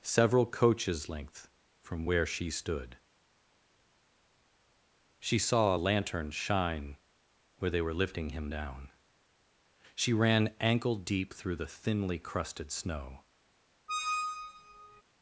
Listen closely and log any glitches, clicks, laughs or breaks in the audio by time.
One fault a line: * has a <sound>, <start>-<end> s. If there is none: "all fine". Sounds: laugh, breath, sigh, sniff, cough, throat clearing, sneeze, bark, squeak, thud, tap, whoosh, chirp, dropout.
* has a squeak, 13.9-15.0 s